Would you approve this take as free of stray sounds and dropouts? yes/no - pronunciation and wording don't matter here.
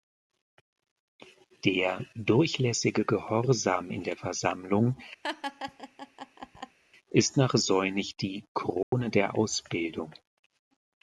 no